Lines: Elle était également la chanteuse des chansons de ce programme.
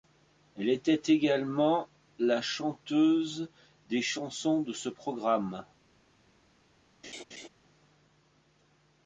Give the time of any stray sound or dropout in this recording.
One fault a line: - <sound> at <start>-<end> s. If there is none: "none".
- laugh at 7.0-7.5 s